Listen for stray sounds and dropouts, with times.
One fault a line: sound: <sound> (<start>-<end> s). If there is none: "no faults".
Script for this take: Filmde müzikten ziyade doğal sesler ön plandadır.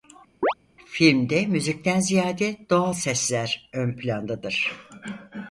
sound: chirp (0.4-0.5 s)